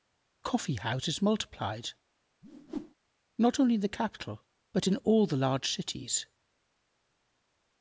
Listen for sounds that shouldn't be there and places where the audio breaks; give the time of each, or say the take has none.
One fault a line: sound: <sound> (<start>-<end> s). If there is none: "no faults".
sound: whoosh (2.4-2.9 s)